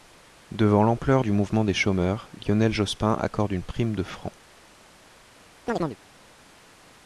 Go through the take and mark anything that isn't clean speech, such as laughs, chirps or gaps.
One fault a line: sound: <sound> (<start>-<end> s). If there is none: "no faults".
sound: chirp (5.7-6.0 s)